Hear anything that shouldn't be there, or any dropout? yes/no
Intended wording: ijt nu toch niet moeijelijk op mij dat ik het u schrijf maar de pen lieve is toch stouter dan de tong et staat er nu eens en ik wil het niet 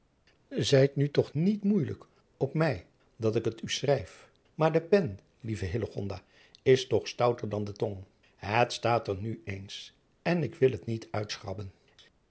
no